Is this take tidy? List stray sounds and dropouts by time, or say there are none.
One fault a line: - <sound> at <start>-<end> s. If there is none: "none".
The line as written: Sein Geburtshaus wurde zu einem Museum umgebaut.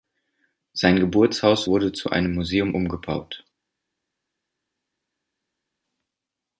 none